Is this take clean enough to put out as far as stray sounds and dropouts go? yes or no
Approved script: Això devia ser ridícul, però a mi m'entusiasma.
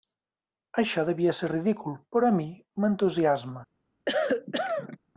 no